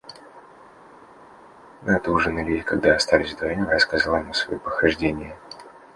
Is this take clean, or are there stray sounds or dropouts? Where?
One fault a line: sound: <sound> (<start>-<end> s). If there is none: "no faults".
no faults